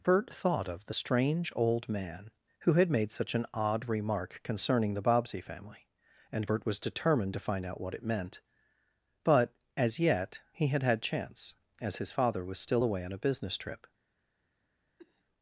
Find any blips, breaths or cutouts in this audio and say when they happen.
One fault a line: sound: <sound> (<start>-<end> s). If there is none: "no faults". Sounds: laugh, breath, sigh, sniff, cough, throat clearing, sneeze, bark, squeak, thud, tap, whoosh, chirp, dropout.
sound: cough (15.0-15.2 s)